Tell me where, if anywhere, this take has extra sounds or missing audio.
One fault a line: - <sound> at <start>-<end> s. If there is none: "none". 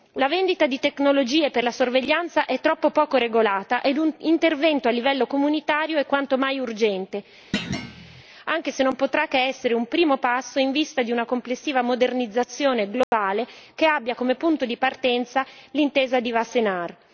- thud at 7.5-8.2 s
- dropout at 13.0-13.1 s